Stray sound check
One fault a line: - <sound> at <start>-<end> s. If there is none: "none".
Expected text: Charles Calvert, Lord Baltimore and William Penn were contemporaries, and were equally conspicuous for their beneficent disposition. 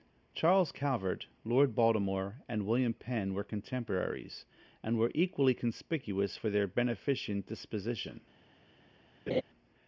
- laugh at 9.3-9.4 s